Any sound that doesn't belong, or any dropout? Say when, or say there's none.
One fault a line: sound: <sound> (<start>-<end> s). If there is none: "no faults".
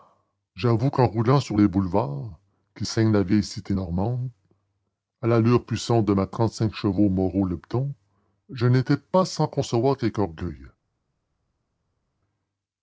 no faults